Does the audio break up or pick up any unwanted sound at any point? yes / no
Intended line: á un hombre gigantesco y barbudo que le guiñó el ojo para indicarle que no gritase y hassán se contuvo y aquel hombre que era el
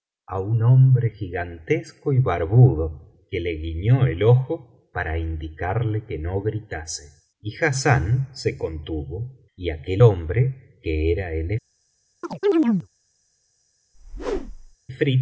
yes